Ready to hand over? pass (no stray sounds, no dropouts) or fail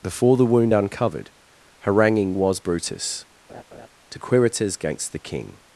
fail